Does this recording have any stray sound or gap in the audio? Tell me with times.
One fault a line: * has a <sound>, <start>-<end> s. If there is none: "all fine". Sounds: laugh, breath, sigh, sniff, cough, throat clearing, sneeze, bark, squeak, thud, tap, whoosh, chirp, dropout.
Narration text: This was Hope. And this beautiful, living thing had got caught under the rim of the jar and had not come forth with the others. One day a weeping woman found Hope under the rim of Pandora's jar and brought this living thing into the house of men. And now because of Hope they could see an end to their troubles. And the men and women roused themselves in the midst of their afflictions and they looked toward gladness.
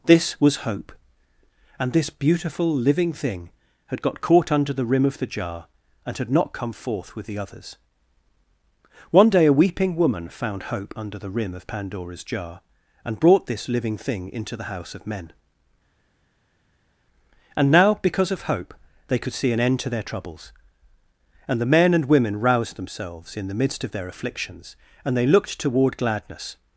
all fine